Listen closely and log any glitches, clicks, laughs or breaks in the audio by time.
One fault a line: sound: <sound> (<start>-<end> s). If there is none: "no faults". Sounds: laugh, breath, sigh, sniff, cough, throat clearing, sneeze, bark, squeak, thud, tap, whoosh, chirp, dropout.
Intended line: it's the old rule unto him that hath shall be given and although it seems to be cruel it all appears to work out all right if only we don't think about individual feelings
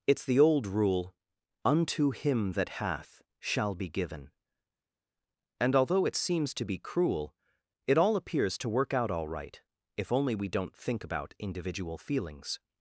no faults